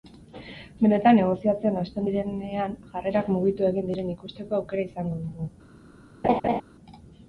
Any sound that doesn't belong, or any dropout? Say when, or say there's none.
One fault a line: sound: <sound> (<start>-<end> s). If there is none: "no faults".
sound: laugh (6.2-6.6 s)